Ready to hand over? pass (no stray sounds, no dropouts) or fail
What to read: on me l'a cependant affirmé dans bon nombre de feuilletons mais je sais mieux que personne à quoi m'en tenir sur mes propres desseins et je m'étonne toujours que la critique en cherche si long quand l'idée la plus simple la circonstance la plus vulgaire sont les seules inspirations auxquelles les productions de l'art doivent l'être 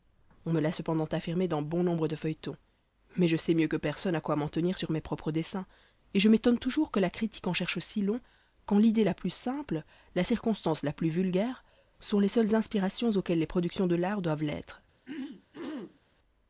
fail